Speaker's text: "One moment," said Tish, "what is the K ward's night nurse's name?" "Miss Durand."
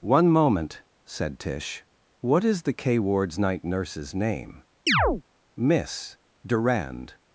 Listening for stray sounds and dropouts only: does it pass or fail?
fail